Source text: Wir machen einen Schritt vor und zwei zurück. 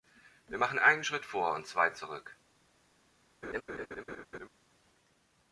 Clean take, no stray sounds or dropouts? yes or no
no